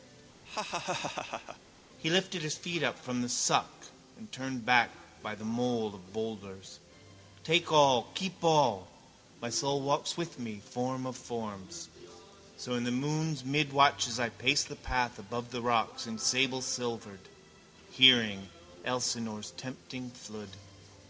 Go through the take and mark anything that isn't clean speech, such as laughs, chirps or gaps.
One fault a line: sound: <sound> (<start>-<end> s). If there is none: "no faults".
sound: laugh (0.4-1.6 s)